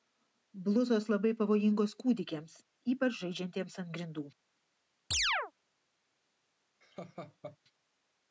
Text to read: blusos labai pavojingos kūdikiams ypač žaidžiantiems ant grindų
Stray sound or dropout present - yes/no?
yes